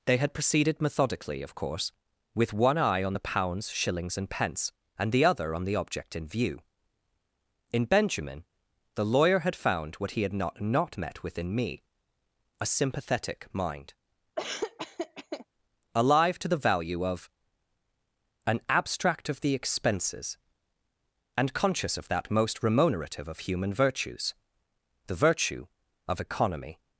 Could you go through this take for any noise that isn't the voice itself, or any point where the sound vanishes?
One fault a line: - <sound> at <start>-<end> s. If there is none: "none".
- laugh at 14.4-15.5 s